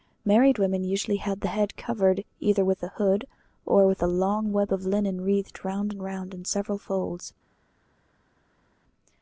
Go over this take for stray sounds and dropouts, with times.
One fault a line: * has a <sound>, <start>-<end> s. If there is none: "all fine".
all fine